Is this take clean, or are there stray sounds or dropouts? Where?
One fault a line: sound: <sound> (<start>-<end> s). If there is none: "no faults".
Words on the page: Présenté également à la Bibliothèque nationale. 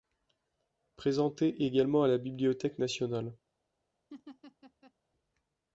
sound: laugh (4.1-4.9 s)